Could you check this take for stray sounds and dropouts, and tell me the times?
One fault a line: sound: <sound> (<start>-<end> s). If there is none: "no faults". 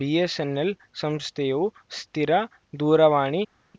no faults